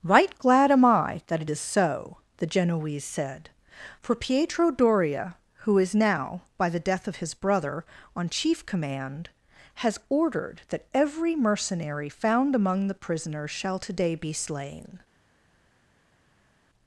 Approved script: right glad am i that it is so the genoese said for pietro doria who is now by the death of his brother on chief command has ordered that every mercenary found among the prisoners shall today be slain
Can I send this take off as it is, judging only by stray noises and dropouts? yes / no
yes